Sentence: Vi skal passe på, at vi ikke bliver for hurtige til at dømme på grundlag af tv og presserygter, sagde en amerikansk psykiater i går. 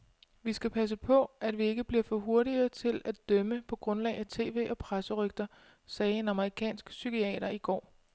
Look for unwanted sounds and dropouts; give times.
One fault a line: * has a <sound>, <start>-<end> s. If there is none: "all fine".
all fine